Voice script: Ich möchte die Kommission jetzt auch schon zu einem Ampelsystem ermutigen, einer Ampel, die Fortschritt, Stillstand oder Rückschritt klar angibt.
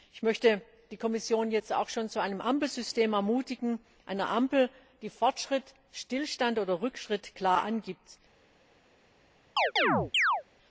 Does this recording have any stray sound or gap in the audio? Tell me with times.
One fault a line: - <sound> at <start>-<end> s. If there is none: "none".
- chirp at 9.6-10.4 s